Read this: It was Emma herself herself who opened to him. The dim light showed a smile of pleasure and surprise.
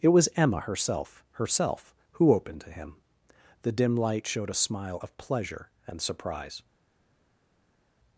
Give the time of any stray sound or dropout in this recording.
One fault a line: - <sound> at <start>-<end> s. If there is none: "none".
none